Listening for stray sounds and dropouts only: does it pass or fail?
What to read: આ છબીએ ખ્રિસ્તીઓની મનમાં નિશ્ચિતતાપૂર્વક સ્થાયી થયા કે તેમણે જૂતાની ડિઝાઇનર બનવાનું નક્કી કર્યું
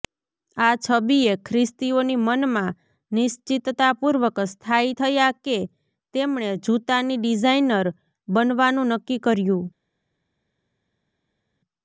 pass